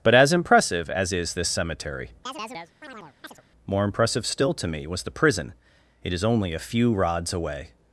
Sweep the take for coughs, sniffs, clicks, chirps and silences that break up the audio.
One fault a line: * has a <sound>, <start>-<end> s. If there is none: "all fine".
* has a chirp, 2.3-3.4 s